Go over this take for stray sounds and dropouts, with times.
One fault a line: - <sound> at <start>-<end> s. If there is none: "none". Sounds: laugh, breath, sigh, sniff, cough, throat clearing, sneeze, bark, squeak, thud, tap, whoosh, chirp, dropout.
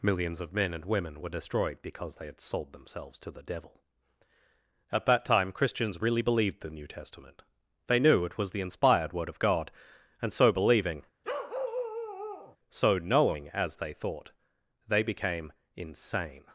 - bark at 11.2-12.6 s